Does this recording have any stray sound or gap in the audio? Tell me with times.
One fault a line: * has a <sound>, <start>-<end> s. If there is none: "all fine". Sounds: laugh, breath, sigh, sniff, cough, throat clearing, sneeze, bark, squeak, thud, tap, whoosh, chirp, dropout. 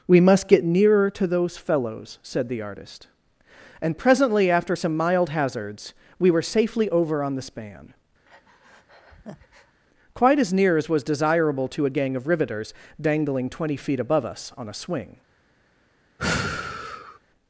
* has a breath, 8.2-9.8 s
* has a sigh, 16.2-17.2 s